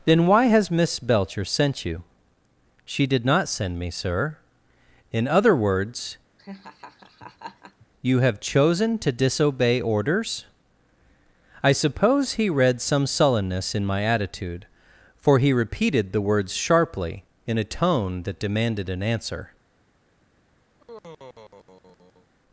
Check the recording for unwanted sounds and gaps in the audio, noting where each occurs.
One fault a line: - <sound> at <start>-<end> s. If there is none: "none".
- laugh at 6.4-7.9 s
- sigh at 20.7-22.3 s